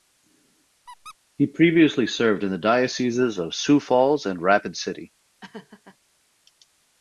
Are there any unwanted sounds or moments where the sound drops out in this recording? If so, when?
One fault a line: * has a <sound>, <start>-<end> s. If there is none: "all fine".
* has a squeak, 0.9-1.2 s
* has a laugh, 5.4-6.0 s